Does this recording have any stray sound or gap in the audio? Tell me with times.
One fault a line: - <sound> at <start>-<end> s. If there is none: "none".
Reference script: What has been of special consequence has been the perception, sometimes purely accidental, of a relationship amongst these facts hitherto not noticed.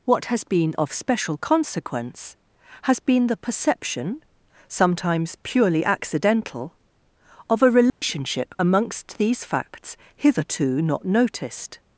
- dropout at 7.9-8.0 s